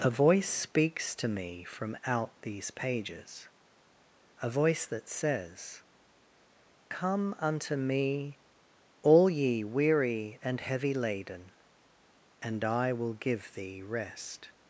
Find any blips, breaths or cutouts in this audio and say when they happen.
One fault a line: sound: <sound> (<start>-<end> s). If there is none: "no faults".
no faults